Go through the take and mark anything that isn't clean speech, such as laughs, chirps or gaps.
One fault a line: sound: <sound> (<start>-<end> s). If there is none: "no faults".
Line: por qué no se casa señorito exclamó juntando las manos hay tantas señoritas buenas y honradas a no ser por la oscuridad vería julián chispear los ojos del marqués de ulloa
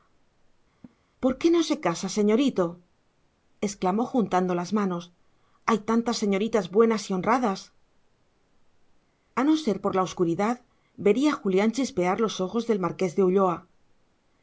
sound: laugh (0.8-1.0 s)